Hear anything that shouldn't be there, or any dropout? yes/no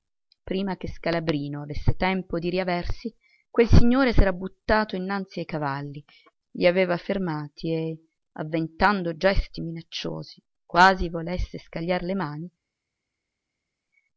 no